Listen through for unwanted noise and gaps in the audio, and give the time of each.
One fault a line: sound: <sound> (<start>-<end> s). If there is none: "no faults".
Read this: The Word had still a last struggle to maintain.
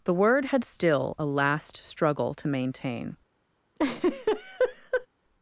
sound: laugh (3.8-5.1 s)